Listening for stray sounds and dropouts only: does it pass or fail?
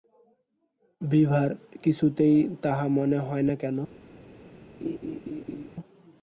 fail